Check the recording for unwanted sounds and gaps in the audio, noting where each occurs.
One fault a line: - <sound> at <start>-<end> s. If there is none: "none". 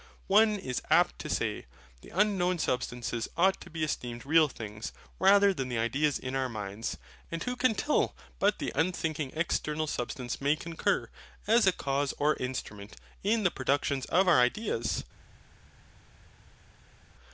none